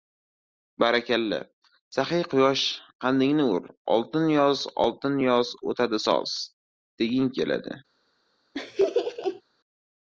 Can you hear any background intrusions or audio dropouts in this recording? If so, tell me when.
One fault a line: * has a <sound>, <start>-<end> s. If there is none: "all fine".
* has a laugh, 8.5-9.4 s